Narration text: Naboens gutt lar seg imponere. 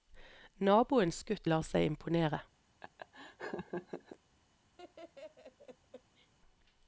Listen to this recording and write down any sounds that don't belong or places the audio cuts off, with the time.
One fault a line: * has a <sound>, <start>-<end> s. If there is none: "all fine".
* has a laugh, 2.8-4.2 s
* has a laugh, 4.8-6.3 s